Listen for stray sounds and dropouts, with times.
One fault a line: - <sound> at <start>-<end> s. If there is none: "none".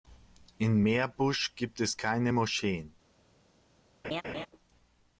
- laugh at 4.0-4.5 s